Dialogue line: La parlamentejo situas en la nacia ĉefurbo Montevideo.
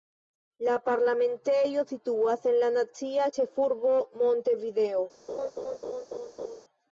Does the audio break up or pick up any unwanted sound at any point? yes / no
yes